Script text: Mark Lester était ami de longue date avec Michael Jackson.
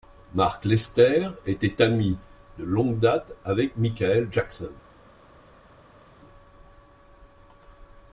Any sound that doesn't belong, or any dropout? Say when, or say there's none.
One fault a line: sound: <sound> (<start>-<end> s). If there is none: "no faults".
no faults